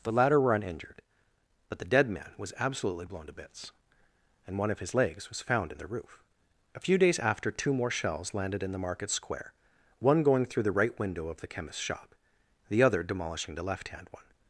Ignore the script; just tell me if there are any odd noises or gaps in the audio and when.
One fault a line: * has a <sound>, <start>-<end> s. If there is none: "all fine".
all fine